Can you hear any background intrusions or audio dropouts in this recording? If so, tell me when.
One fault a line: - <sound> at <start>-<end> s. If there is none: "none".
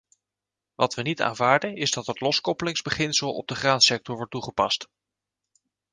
none